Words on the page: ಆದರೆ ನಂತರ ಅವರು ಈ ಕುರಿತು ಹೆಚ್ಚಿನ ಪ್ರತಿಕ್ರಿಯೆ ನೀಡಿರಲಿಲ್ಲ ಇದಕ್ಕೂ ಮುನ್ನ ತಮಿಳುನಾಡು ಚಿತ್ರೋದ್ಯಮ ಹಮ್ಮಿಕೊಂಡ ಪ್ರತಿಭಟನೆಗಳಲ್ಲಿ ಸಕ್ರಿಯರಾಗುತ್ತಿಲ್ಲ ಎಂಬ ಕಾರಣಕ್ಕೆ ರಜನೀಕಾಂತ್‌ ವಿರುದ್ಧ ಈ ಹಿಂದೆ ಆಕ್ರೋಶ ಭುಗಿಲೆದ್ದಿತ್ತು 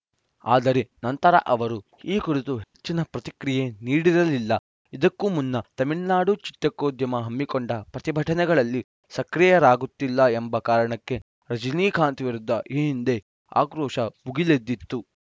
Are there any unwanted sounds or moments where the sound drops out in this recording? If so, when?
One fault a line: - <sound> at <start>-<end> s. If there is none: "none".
- dropout at 2.6-2.7 s